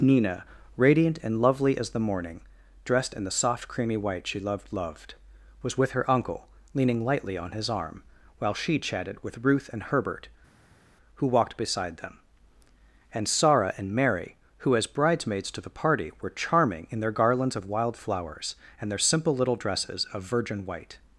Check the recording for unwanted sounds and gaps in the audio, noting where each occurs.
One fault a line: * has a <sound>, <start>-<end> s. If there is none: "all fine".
all fine